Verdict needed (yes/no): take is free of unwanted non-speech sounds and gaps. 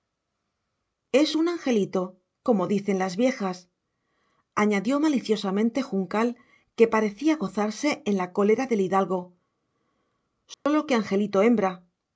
no